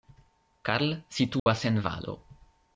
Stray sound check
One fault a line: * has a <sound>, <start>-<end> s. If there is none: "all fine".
* has a dropout, 1.4-1.5 s